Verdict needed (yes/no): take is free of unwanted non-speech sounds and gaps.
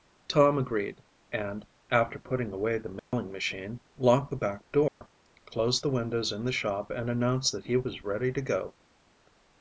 no